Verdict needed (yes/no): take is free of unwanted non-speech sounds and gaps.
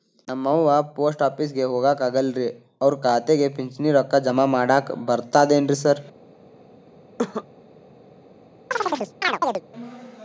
no